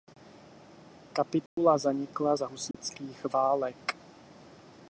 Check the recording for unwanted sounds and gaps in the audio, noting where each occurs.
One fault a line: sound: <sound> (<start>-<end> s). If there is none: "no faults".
sound: dropout (1.5-1.6 s)
sound: dropout (2.7-2.7 s)